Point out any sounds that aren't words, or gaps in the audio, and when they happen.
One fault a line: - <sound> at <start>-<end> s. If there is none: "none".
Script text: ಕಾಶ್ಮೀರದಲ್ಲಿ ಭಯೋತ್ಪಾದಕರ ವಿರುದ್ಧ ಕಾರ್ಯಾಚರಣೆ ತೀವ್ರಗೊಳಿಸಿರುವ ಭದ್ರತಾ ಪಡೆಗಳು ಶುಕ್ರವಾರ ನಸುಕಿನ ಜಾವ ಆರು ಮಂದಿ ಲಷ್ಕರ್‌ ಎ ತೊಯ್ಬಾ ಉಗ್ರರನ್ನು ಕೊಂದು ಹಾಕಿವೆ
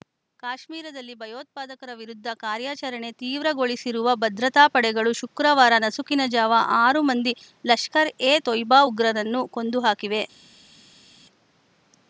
none